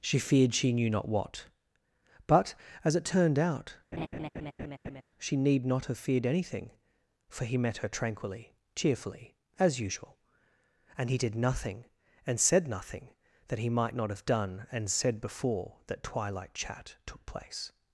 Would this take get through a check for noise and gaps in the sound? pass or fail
fail